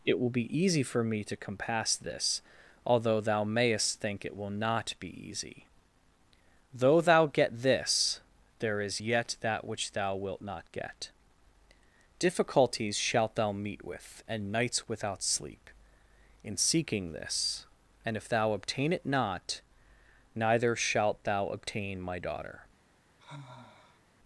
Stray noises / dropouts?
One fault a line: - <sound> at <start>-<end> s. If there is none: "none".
- sigh at 23.2-24.0 s